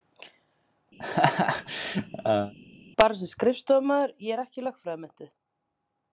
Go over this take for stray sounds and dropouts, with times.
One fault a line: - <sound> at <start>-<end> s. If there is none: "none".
- laugh at 1.0-2.5 s